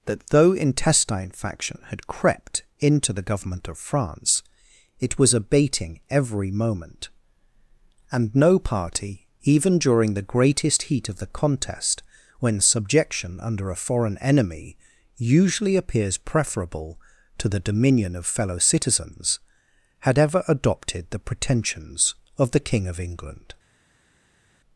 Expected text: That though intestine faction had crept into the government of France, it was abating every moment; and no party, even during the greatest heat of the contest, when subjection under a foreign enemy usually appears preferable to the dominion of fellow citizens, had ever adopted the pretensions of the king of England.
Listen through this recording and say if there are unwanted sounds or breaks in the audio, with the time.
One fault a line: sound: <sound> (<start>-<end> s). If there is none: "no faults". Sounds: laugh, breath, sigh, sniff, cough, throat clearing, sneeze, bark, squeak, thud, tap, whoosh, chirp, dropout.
no faults